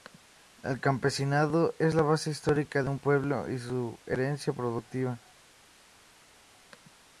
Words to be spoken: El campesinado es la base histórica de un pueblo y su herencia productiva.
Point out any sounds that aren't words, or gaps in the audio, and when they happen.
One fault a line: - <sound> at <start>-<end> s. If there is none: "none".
none